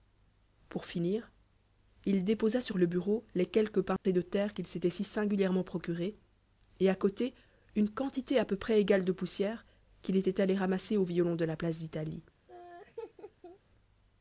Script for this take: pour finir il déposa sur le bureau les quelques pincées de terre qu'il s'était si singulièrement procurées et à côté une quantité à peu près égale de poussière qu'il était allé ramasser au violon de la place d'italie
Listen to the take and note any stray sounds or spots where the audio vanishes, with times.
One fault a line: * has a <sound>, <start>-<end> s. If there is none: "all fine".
* has a dropout, 4.0-4.0 s
* has a laugh, 12.5-13.6 s